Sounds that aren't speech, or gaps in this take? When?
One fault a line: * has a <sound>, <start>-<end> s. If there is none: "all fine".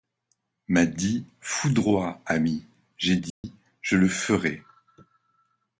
* has a dropout, 3.3-3.4 s